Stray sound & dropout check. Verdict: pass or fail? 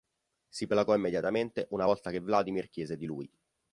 pass